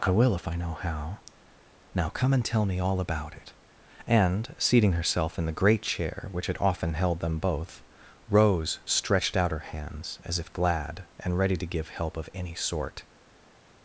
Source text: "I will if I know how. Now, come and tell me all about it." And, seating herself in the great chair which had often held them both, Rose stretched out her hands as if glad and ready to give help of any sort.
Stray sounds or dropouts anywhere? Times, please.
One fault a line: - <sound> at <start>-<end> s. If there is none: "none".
none